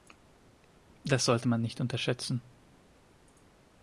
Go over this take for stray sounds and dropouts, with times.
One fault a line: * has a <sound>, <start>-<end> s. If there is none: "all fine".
all fine